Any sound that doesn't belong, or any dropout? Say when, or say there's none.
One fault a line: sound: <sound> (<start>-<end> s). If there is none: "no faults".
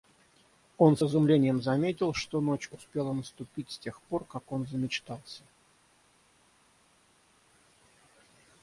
no faults